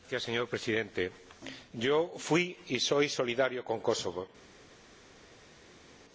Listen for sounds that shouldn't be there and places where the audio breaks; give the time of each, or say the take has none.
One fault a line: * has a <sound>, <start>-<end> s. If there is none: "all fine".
all fine